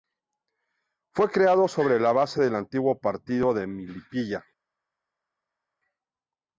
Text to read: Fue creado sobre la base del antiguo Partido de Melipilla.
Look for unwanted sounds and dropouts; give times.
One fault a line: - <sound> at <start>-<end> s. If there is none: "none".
none